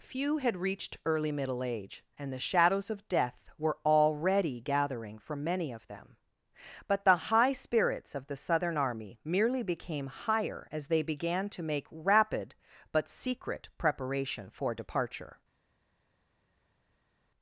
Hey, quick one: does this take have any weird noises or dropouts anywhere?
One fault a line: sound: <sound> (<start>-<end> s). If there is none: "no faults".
no faults